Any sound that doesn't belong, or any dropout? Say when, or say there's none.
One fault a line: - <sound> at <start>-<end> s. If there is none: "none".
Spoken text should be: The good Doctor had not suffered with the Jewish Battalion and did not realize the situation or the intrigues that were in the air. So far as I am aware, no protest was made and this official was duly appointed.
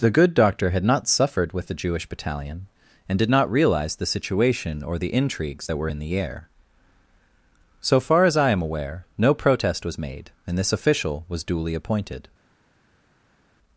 none